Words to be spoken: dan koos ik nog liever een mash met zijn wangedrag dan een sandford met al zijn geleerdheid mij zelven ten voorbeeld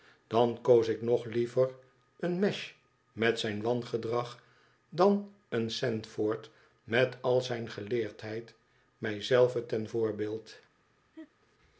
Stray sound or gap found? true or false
true